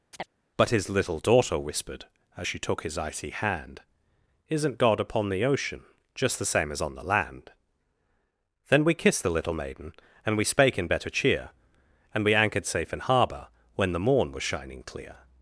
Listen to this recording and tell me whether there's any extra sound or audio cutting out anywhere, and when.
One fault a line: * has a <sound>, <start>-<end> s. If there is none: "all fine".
* has a chirp, 0.1-0.3 s